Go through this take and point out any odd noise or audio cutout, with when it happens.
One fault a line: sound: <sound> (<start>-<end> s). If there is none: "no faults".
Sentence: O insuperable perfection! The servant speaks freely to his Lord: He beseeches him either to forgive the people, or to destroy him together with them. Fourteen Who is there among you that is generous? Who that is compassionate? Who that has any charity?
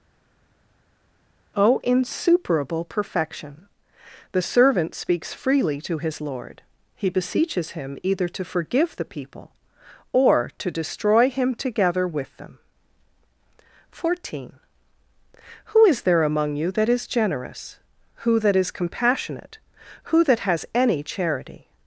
no faults